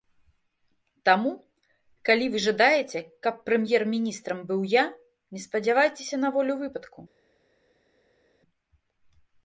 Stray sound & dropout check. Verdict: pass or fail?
pass